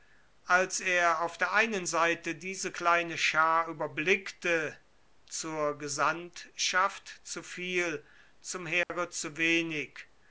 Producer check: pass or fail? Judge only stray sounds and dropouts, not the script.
fail